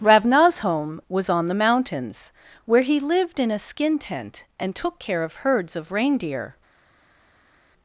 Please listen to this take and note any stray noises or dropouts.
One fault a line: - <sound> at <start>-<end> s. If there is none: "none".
none